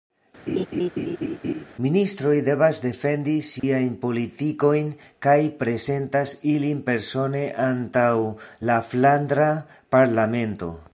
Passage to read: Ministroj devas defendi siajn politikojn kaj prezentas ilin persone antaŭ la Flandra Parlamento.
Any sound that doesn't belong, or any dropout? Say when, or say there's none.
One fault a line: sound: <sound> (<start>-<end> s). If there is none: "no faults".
sound: laugh (0.5-1.6 s)
sound: dropout (3.6-3.6 s)